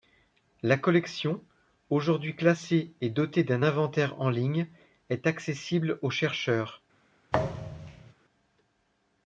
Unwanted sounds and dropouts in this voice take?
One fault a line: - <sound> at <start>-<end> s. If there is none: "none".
- thud at 7.3-8.1 s